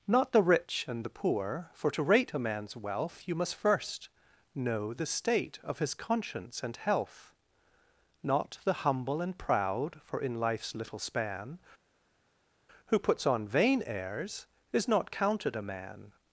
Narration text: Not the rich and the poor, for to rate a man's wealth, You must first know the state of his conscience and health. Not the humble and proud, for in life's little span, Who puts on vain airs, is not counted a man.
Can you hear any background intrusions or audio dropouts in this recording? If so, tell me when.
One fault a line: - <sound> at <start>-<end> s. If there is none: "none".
none